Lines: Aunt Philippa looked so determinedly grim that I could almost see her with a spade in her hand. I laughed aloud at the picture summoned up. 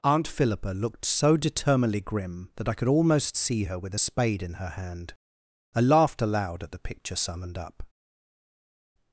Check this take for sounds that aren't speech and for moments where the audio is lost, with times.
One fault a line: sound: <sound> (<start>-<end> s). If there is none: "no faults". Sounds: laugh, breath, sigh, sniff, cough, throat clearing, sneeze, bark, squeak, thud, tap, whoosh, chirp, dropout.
no faults